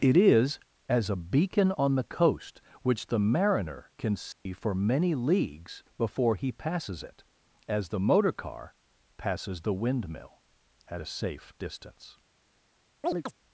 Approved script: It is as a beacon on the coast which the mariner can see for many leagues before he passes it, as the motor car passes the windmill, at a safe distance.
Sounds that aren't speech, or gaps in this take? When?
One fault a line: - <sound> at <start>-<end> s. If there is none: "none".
- dropout at 4.3-4.5 s
- chirp at 13.0-13.3 s